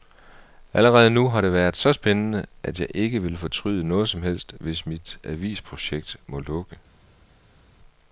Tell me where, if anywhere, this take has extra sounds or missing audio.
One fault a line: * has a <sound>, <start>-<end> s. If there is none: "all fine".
all fine